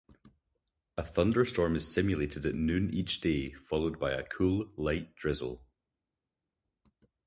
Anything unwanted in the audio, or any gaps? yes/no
no